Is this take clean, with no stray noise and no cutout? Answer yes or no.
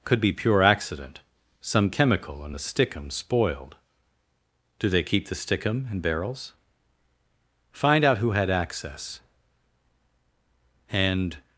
yes